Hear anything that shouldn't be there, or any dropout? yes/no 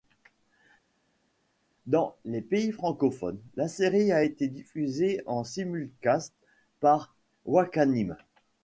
no